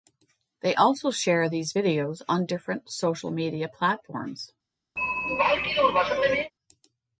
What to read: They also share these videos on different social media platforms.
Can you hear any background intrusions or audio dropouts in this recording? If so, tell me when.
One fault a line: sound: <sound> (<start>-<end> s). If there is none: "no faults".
sound: throat clearing (5.0-6.5 s)